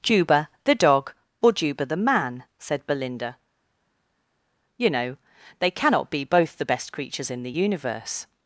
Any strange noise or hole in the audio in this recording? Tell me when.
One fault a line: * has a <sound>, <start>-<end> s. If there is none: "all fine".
all fine